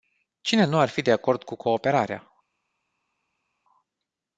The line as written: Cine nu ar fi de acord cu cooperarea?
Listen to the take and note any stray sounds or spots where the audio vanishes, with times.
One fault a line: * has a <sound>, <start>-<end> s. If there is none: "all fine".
all fine